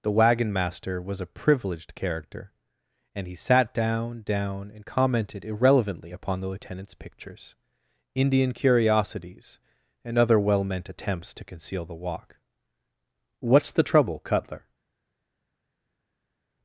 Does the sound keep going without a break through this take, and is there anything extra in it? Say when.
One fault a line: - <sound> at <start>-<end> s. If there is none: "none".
none